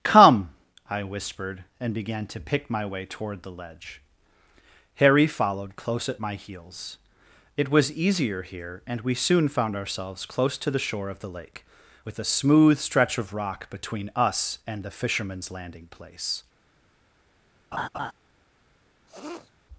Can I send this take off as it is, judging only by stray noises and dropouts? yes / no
no